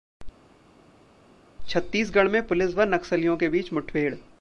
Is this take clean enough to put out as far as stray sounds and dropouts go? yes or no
yes